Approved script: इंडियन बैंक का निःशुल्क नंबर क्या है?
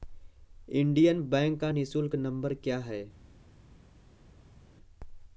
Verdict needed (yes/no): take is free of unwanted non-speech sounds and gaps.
yes